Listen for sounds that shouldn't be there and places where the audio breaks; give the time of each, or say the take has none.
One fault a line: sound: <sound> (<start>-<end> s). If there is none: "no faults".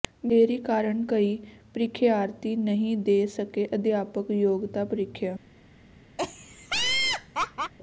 sound: laugh (6.2-7.7 s)